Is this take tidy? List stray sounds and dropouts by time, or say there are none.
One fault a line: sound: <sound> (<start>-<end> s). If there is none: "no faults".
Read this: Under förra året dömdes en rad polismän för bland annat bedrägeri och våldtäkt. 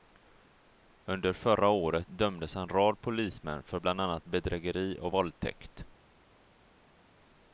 no faults